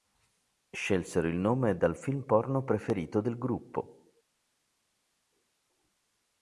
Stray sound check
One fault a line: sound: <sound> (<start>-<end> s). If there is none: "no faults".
no faults